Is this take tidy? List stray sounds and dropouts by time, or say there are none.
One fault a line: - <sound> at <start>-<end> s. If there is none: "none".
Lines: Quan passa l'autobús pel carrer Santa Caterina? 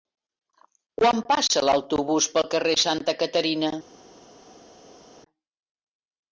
none